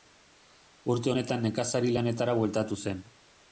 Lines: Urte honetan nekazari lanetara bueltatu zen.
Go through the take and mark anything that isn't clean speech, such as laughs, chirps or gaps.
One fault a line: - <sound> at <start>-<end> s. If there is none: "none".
none